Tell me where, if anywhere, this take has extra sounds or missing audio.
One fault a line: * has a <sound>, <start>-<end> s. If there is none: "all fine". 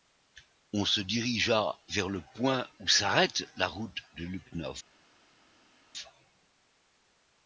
all fine